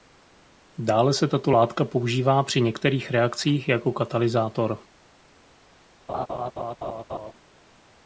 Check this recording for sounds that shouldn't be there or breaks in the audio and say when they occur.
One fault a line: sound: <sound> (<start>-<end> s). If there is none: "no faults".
sound: laugh (6.1-7.3 s)